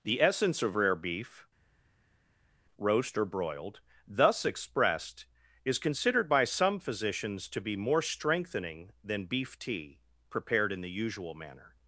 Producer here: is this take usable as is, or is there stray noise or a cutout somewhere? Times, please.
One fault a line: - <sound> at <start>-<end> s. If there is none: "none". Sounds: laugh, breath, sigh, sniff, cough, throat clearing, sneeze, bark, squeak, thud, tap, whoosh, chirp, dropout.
none